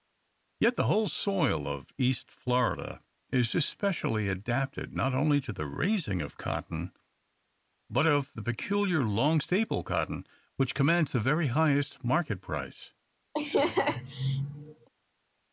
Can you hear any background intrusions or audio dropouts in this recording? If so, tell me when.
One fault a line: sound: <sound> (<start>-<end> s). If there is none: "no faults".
sound: laugh (13.3-14.9 s)